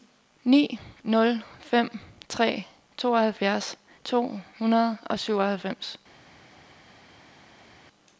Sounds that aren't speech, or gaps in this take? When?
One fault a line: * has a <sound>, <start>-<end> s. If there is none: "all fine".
all fine